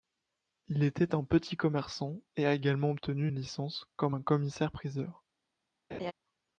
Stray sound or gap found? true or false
true